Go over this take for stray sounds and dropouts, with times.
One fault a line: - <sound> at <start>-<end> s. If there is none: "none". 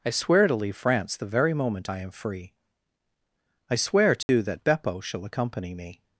- dropout at 4.2-4.3 s